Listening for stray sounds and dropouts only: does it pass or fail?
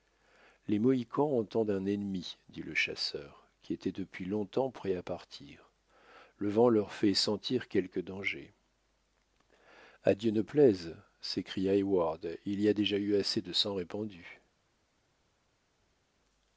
pass